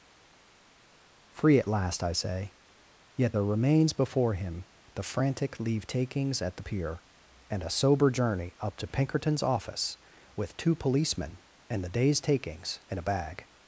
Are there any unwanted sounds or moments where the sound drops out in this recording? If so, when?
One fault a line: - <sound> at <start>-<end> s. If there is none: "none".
none